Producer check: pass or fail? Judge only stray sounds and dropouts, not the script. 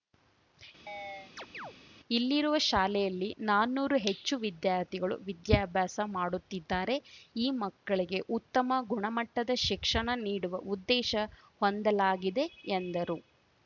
fail